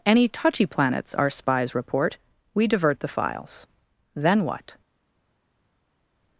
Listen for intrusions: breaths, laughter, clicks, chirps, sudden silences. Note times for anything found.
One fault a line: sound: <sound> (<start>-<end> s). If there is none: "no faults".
no faults